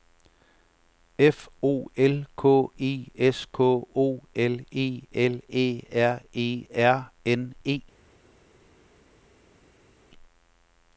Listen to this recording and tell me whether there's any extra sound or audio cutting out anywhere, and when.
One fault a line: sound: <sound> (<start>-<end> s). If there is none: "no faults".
no faults